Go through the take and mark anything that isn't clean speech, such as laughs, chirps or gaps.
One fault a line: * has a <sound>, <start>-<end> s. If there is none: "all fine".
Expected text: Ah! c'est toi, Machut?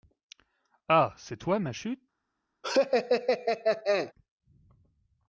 * has a laugh, 2.6-4.1 s